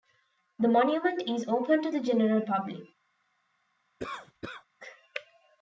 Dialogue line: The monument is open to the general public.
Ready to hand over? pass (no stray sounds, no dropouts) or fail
fail